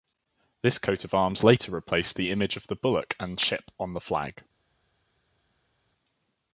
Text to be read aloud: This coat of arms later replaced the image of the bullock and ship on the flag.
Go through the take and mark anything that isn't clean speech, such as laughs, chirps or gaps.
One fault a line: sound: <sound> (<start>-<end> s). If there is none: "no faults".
no faults